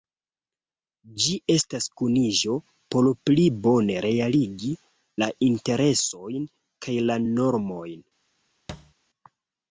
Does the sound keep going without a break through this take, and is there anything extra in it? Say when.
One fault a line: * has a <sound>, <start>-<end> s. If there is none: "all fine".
* has a thud, 8.7-8.9 s